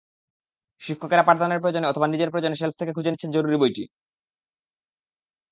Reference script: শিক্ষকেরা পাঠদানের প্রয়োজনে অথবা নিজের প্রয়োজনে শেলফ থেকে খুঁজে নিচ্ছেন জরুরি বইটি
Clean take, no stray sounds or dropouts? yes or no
yes